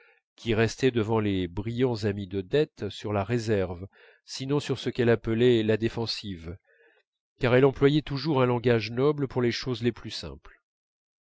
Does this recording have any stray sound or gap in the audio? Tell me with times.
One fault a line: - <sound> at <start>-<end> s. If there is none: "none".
none